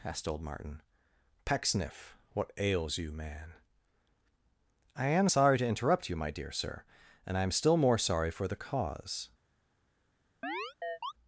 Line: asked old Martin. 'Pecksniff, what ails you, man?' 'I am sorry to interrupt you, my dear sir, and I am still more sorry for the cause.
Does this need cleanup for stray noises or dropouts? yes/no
yes